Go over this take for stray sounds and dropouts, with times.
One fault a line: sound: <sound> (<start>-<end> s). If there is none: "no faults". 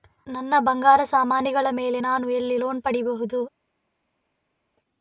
no faults